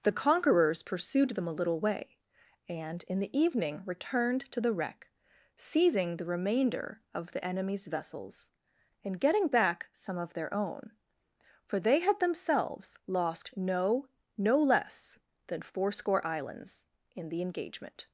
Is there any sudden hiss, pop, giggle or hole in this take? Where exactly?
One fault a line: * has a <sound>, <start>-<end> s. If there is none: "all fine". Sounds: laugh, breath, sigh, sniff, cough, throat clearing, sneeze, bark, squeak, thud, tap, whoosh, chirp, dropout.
all fine